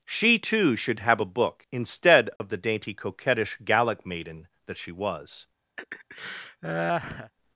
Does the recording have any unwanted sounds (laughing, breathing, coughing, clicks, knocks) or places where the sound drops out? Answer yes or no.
yes